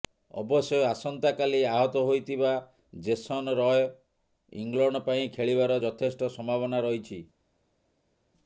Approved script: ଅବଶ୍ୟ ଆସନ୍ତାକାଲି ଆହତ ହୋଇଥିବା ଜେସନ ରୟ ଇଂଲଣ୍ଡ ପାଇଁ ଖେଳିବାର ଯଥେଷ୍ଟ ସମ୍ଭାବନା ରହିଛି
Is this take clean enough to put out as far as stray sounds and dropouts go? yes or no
yes